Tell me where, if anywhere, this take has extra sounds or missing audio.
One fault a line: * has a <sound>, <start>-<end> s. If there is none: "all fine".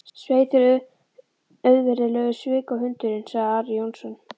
all fine